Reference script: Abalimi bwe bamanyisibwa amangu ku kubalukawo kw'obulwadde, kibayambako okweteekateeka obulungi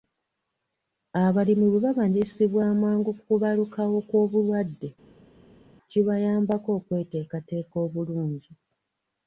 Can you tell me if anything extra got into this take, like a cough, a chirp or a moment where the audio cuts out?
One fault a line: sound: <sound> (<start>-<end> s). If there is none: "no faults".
no faults